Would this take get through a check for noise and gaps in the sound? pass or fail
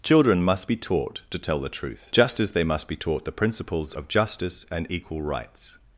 pass